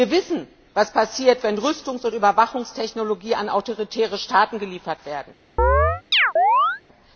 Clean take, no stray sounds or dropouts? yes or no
no